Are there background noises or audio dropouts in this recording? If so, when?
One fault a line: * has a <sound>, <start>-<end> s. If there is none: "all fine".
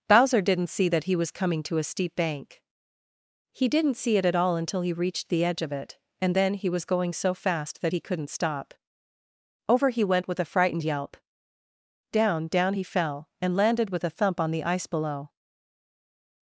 all fine